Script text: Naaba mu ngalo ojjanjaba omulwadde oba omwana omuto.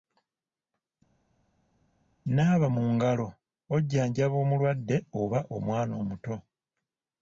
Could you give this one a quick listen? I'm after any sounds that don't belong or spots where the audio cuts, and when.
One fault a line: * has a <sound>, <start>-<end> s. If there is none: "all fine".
all fine